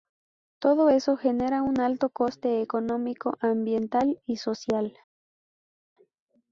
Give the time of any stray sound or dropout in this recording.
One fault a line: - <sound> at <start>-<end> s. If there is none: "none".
none